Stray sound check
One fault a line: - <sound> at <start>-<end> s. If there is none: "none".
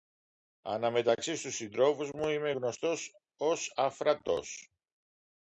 none